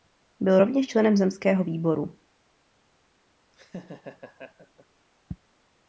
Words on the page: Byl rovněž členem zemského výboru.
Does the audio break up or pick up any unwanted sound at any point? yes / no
yes